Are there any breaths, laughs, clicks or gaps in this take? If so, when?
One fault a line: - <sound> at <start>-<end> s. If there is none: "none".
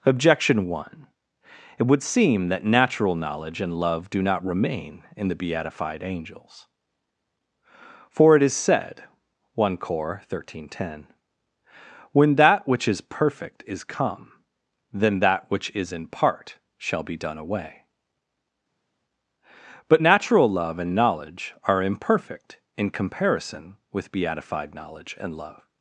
none